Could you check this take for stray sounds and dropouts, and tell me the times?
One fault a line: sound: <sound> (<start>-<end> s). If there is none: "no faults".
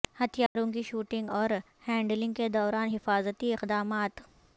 sound: dropout (0.5-0.6 s)